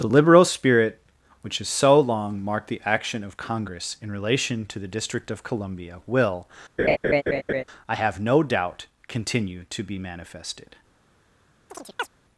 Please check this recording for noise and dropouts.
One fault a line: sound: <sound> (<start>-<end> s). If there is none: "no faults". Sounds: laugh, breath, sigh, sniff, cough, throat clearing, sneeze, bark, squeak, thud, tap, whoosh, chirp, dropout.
sound: laugh (6.8-7.6 s)
sound: chirp (11.7-12.1 s)